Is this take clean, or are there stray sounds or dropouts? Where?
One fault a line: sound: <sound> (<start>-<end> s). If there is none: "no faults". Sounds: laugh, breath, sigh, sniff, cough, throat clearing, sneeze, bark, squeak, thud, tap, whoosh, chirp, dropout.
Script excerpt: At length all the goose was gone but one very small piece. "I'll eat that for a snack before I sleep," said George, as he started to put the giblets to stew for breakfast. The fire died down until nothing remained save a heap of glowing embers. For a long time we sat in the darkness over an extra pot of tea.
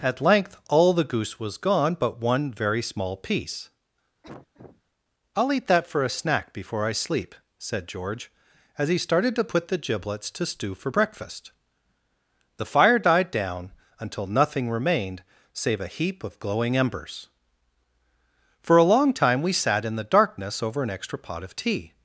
sound: cough (4.2-4.8 s)